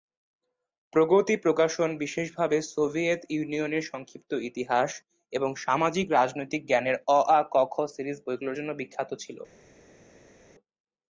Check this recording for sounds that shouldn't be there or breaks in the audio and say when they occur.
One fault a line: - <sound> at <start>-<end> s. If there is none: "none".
none